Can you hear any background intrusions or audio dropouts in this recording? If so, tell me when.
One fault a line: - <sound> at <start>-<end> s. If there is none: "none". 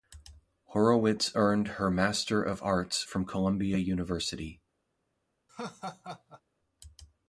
- laugh at 5.5-6.4 s